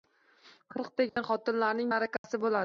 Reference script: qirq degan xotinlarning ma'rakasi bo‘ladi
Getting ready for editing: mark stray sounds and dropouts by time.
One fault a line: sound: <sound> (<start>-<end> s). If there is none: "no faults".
sound: dropout (1.1-1.2 s)
sound: dropout (2.2-2.2 s)